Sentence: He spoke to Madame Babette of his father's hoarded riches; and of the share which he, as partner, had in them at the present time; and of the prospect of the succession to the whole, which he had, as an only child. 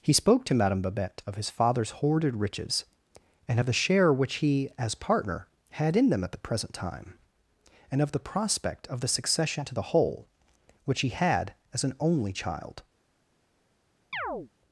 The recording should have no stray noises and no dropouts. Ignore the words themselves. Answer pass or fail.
fail